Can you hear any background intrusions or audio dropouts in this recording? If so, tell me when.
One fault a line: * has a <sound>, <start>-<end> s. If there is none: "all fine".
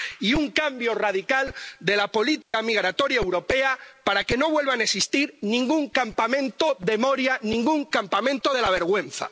* has a dropout, 2.4-2.5 s